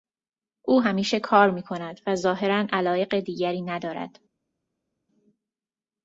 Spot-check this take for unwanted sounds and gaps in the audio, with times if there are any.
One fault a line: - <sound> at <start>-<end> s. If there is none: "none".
none